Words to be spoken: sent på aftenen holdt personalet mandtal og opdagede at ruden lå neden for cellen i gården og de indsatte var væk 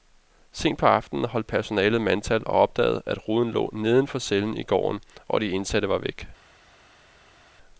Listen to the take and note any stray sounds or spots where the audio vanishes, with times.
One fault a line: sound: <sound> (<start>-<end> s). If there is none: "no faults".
no faults